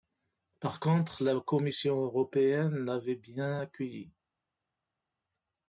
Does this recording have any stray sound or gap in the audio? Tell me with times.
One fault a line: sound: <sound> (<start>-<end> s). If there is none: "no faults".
no faults